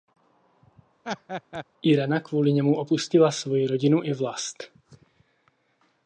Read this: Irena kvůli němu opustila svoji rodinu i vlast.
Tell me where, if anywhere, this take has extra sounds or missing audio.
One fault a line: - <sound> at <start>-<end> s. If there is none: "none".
- laugh at 1.0-1.6 s